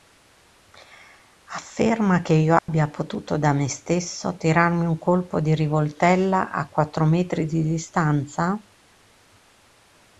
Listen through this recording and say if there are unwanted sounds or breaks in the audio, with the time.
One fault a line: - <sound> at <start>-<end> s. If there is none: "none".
- dropout at 2.6-2.7 s